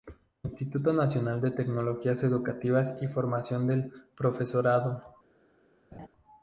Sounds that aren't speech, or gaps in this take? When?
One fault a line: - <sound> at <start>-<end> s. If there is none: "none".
- laugh at 5.9-6.1 s